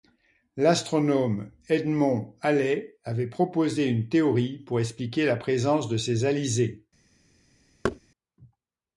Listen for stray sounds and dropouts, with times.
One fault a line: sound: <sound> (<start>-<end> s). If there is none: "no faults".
sound: thud (7.8-8.0 s)